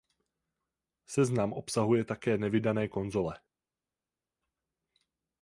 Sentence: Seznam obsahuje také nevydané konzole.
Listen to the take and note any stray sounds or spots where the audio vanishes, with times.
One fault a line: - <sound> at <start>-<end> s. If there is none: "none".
none